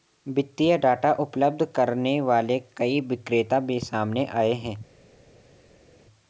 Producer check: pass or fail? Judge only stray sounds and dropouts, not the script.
pass